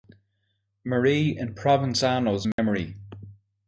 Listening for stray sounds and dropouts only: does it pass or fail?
fail